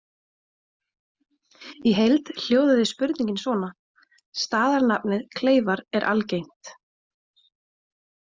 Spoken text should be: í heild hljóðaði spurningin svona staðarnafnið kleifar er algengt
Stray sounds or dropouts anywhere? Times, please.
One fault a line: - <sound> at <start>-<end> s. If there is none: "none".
none